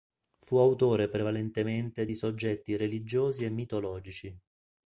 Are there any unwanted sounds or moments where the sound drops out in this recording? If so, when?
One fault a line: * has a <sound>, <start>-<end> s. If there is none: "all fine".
all fine